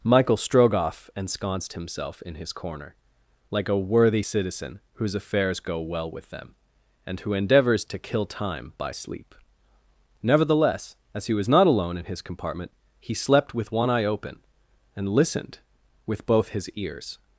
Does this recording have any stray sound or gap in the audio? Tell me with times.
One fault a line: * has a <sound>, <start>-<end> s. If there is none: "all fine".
all fine